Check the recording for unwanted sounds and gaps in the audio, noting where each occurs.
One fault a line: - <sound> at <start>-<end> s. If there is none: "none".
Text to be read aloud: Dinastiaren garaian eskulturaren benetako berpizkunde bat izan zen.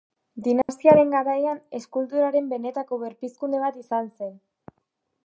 - dropout at 0.6-0.7 s